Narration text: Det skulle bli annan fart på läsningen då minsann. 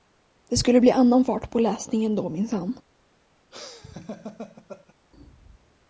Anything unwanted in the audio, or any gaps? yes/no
yes